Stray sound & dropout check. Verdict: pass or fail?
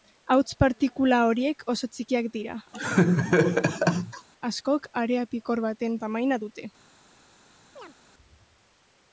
fail